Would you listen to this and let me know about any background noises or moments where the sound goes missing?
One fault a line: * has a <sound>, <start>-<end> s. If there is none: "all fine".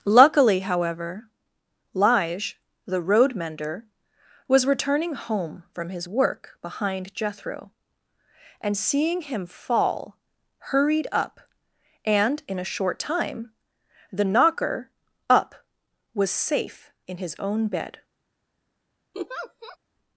* has a laugh, 19.1-19.8 s